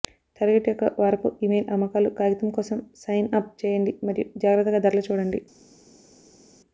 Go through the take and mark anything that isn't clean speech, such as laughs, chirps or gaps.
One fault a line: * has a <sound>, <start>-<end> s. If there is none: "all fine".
all fine